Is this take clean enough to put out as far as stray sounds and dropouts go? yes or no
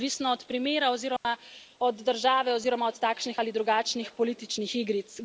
no